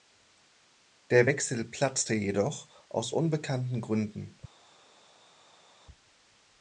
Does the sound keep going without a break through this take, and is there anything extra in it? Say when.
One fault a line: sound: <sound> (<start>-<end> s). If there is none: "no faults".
no faults